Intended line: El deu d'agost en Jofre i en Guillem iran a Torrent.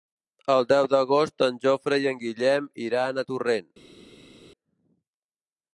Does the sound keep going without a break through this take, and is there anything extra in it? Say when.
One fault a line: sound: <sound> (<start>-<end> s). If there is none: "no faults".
no faults